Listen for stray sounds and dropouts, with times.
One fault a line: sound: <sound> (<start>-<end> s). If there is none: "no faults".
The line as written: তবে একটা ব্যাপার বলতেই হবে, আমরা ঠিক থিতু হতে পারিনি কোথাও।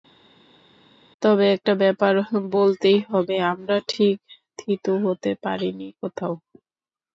no faults